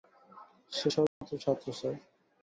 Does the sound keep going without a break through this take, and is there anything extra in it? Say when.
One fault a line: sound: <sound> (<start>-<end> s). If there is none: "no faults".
sound: dropout (1.1-1.2 s)